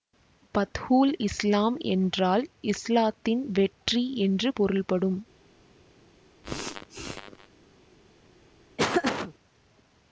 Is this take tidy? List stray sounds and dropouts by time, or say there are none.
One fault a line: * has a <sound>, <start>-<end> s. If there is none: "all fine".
* has a sneeze, 6.4-7.5 s
* has a laugh, 8.8-9.3 s